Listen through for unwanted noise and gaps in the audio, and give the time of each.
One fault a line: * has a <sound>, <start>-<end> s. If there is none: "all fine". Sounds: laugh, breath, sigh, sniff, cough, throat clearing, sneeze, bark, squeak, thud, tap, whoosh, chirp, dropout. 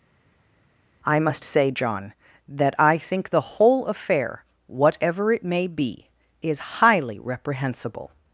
all fine